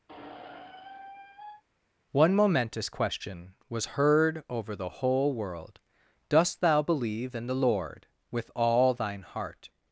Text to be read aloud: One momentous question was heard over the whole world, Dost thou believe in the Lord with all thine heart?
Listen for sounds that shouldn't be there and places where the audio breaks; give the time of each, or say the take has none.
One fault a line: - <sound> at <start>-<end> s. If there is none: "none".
- squeak at 0.1-1.6 s